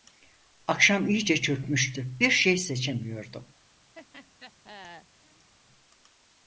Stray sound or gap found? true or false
true